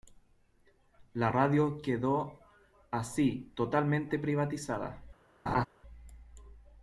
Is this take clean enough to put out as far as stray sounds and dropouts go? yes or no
no